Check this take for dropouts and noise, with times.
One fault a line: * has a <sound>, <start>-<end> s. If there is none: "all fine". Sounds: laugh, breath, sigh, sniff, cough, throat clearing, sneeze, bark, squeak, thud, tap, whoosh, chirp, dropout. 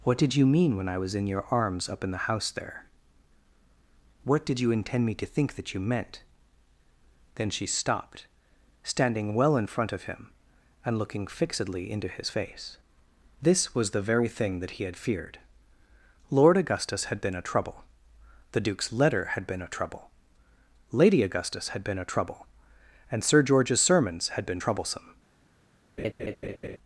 * has a laugh, 26.0-26.8 s